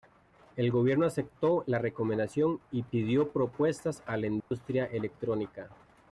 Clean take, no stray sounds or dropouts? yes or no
no